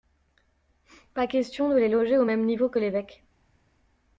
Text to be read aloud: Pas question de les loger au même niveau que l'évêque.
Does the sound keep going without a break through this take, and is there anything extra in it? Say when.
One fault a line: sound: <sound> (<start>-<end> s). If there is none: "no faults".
no faults